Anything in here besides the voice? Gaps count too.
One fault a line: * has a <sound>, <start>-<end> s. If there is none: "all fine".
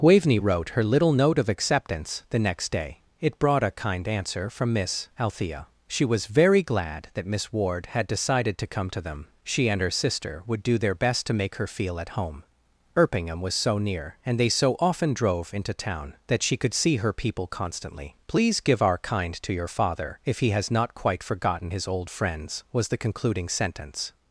all fine